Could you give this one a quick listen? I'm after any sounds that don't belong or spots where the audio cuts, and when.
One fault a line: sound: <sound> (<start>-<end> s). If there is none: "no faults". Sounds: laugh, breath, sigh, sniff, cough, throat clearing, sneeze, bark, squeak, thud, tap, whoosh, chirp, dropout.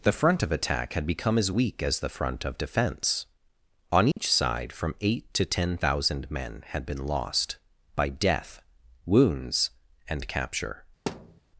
sound: dropout (4.1-4.2 s)
sound: thud (11.1-11.4 s)